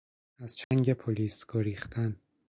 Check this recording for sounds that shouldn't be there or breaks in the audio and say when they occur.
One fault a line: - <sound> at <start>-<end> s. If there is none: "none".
- dropout at 0.6-0.7 s